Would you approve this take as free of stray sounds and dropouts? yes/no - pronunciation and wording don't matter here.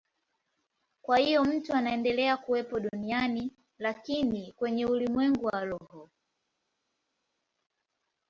yes